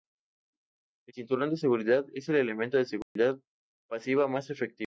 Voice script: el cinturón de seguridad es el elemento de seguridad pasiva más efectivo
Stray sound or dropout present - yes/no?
yes